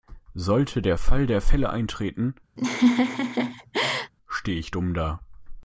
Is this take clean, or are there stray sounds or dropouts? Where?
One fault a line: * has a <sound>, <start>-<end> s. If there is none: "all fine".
* has a laugh, 2.6-4.1 s